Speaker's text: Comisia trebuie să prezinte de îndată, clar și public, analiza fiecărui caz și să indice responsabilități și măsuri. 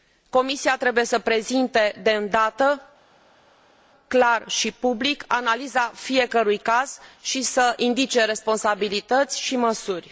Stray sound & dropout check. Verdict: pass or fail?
pass